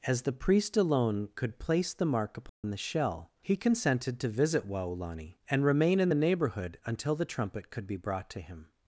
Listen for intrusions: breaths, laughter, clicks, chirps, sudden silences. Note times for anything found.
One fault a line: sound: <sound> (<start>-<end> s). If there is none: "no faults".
sound: dropout (2.5-2.6 s)